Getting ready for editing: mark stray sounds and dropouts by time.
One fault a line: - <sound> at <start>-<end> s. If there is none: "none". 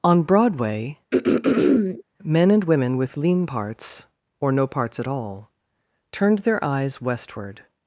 - throat clearing at 1.1-2.0 s